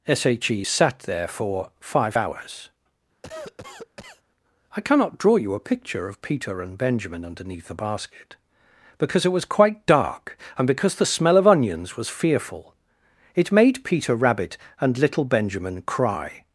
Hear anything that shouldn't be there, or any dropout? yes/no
yes